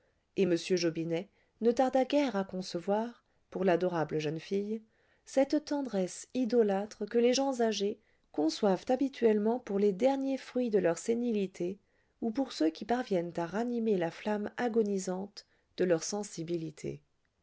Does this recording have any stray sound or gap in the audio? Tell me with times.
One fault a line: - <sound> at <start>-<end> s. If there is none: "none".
none